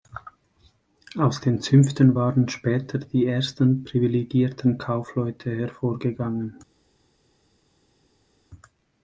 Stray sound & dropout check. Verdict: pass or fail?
pass